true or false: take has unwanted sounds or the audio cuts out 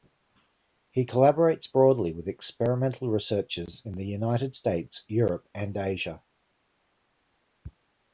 false